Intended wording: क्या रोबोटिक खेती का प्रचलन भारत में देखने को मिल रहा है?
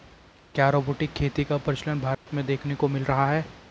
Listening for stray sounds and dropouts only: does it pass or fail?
fail